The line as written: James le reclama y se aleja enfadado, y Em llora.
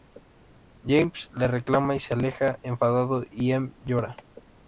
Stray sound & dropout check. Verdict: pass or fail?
pass